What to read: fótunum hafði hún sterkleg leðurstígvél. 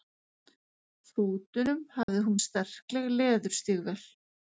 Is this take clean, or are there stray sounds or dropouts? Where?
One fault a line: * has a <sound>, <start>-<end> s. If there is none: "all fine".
* has a dropout, 2.0-2.1 s